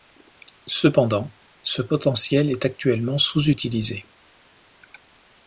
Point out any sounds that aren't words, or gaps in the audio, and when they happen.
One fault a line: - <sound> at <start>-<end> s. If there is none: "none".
none